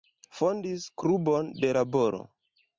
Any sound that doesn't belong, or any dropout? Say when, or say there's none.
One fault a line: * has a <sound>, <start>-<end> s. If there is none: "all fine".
all fine